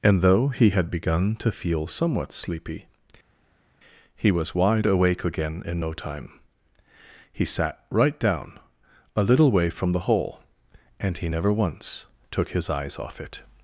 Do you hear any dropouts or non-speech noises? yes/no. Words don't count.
no